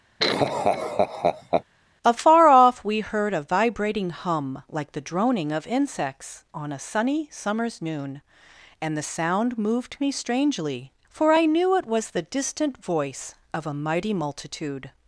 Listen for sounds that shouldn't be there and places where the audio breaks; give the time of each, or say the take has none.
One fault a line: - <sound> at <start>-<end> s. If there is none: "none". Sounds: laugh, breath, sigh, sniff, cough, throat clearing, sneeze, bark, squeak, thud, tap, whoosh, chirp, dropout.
- laugh at 0.2-1.6 s